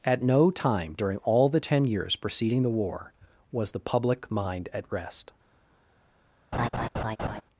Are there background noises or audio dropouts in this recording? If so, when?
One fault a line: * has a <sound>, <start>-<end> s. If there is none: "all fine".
* has a laugh, 6.5-7.4 s